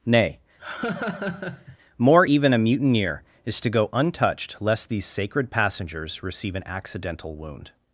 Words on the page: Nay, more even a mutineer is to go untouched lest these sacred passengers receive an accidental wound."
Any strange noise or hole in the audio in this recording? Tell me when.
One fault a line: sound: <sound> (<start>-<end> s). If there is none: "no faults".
sound: laugh (0.6-1.8 s)